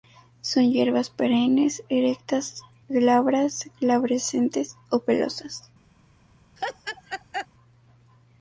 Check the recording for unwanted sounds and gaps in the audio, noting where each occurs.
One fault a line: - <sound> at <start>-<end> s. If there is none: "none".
- laugh at 6.6-7.5 s